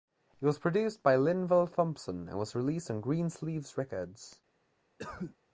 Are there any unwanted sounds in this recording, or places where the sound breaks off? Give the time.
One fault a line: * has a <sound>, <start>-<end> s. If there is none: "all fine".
* has a cough, 5.0-5.4 s